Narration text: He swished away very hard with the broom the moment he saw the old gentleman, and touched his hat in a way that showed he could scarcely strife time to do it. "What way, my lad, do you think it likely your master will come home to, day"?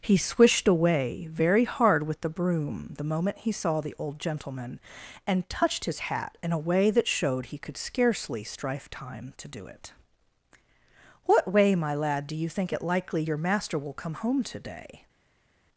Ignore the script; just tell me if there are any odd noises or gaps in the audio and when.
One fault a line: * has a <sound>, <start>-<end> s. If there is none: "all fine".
all fine